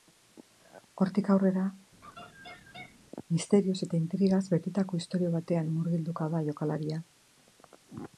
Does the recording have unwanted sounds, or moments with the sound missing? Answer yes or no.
yes